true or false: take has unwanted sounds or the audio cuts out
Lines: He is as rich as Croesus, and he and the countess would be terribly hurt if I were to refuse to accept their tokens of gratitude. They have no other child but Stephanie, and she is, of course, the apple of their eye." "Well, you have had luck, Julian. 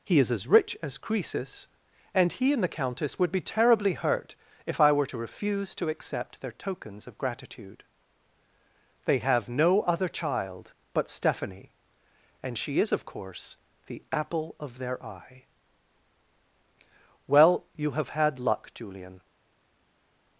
false